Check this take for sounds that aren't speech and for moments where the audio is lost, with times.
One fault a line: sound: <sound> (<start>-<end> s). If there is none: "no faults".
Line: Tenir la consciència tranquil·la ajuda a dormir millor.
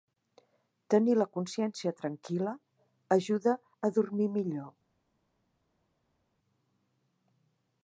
no faults